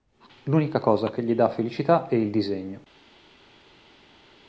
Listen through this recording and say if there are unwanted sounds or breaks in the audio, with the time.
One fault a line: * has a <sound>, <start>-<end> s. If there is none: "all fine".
all fine